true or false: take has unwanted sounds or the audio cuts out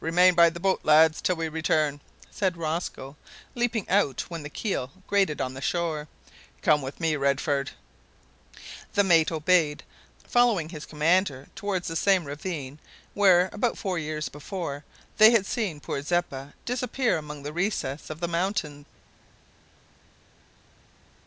false